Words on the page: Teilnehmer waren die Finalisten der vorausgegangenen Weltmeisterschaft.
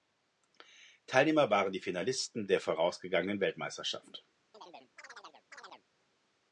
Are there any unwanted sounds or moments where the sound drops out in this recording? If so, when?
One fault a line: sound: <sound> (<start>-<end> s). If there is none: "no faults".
sound: chirp (4.5-5.9 s)